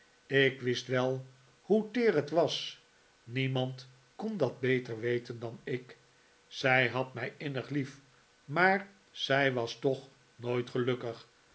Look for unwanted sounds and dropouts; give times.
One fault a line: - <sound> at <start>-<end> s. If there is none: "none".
none